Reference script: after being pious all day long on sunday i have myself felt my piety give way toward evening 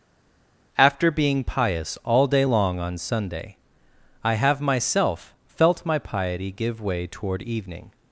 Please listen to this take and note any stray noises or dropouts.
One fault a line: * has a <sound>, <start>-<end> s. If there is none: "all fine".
all fine